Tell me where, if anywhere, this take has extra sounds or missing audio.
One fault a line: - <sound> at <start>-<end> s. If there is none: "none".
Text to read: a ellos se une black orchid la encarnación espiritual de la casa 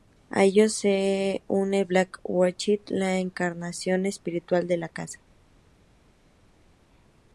none